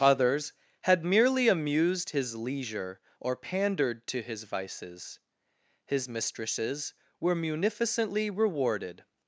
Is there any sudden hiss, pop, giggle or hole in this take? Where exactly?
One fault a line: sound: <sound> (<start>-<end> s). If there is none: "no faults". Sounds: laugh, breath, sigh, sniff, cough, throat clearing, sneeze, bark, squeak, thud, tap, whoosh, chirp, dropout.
no faults